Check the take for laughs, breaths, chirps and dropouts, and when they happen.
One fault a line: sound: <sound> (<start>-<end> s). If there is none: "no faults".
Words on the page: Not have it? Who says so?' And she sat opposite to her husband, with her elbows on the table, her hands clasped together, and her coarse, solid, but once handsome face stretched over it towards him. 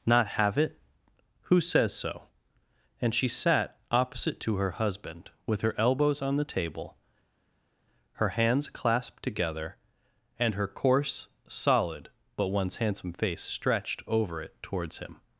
no faults